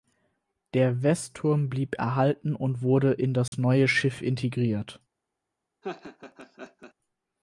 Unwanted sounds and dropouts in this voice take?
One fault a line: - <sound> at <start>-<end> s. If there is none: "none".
- dropout at 3.5-3.5 s
- laugh at 5.8-6.9 s